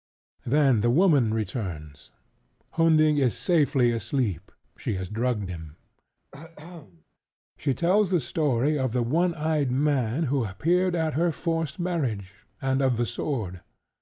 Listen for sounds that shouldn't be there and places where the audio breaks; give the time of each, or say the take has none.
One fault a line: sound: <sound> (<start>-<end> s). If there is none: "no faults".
sound: cough (6.3-7.0 s)